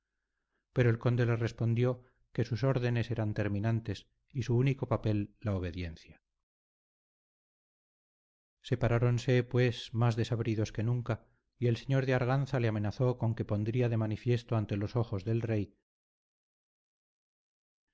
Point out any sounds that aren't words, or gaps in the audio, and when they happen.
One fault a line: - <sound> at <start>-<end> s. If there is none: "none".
none